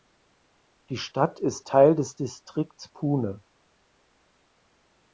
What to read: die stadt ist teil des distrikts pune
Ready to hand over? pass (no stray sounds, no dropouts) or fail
pass